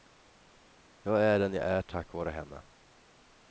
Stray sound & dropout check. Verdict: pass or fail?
pass